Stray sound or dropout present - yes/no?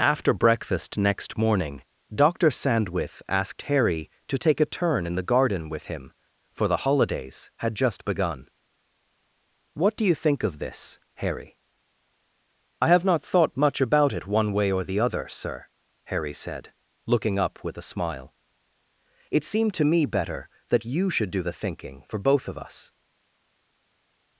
no